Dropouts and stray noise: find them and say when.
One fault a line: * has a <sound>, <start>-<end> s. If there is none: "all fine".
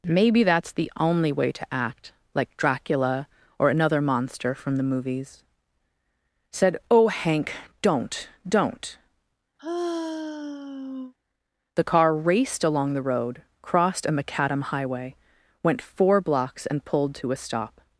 * has a sigh, 9.6-11.1 s